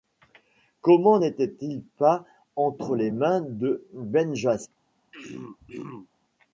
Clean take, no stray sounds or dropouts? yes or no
no